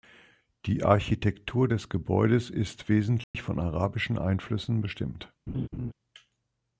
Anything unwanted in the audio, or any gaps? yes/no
yes